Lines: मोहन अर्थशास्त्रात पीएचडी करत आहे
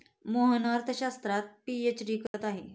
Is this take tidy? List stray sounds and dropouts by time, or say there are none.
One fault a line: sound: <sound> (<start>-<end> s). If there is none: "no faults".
sound: dropout (2.3-2.3 s)